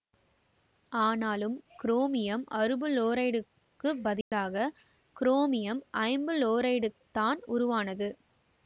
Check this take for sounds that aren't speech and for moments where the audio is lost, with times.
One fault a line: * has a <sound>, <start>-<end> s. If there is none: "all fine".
* has a dropout, 4.2-4.3 s